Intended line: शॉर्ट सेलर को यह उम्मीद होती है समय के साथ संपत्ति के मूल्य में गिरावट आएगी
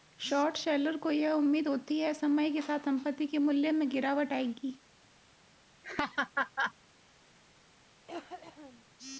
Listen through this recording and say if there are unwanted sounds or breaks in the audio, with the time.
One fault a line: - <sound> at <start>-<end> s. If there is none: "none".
- laugh at 5.8-6.7 s
- cough at 8.1-8.9 s